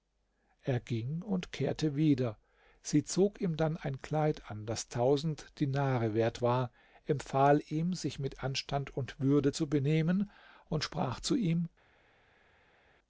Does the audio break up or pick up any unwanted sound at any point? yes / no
no